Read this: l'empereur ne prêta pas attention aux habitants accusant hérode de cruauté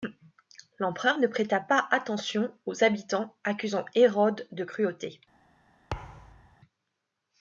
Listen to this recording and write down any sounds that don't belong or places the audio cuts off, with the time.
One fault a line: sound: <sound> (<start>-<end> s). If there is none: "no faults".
sound: thud (5.9-6.6 s)